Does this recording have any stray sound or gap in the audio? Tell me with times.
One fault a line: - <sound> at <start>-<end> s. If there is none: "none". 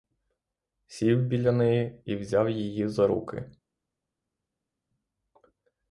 none